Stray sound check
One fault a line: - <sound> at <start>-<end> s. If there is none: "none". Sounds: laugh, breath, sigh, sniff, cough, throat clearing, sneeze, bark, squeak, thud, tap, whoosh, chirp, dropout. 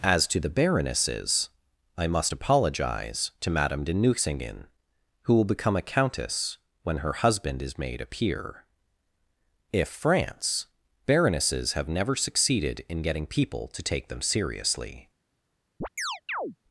- chirp at 15.8-16.6 s